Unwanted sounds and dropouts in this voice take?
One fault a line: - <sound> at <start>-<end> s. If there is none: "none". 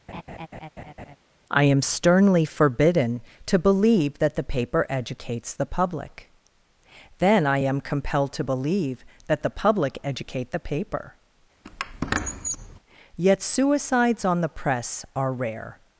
- laugh at 0.1-1.2 s
- squeak at 11.6-12.8 s